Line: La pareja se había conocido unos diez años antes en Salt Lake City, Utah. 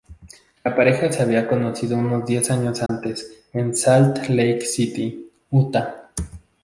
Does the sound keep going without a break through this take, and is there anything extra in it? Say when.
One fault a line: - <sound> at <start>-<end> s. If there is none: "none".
- dropout at 2.9-2.9 s